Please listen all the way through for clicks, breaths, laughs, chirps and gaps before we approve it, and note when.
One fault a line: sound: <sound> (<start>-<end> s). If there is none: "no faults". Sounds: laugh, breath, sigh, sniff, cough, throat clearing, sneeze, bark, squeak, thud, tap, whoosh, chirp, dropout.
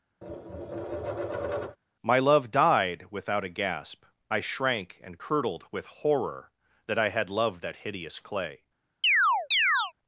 sound: tap (0.2-1.8 s)
sound: chirp (9.0-9.9 s)